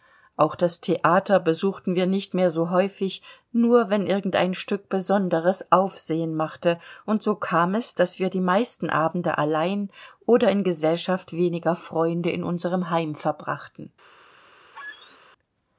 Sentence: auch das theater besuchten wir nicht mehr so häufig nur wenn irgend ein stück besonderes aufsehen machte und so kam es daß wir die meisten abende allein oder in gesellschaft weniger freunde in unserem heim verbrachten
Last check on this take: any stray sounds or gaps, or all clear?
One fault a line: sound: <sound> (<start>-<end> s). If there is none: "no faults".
sound: squeak (14.7-15.2 s)